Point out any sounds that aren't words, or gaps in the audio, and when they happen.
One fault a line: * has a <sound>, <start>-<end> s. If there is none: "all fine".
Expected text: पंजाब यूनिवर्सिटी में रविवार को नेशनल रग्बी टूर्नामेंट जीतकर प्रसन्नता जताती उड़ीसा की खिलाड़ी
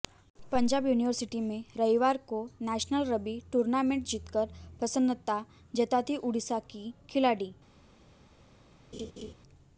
* has a laugh, 8.9-9.3 s